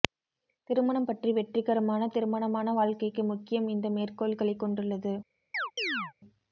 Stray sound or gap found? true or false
true